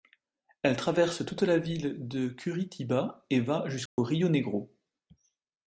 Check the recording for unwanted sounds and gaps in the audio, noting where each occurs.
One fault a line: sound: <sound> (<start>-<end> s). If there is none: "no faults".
sound: dropout (3.9-4.0 s)